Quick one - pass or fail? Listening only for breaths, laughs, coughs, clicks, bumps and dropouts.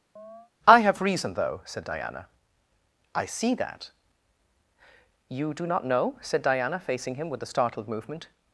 fail